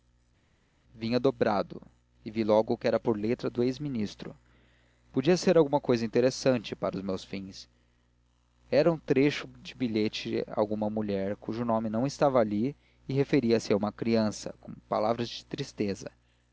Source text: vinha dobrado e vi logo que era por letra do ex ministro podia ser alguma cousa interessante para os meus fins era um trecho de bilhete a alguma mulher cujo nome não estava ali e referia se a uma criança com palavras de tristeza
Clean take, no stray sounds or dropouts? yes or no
yes